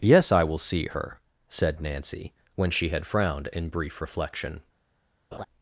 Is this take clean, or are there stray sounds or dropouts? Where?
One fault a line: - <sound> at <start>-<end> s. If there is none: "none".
- laugh at 5.3-5.5 s